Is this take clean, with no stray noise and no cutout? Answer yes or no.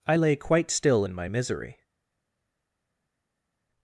yes